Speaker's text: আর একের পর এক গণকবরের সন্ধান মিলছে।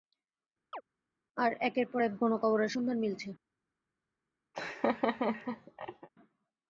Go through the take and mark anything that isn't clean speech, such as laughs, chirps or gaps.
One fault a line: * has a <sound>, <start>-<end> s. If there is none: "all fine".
* has a chirp, 0.7-0.8 s
* has a laugh, 4.5-6.1 s